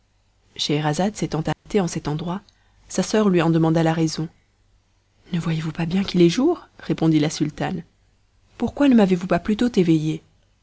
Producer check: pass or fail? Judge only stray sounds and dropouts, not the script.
fail